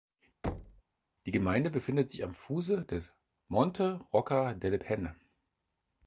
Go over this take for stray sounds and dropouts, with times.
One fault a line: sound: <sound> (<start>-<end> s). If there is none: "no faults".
sound: thud (0.4-0.8 s)